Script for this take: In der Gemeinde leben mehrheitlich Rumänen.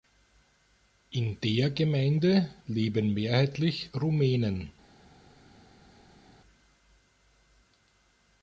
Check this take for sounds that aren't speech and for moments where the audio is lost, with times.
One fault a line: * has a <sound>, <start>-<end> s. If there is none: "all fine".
all fine